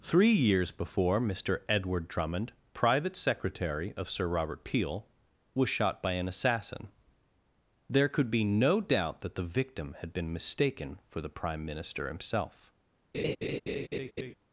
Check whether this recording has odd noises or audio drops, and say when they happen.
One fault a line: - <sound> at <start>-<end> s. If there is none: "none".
- laugh at 13.1-14.4 s